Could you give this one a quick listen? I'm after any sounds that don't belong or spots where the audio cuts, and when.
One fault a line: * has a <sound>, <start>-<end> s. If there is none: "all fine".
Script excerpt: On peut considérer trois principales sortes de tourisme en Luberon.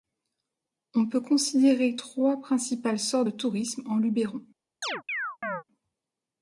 * has a chirp, 4.8-5.6 s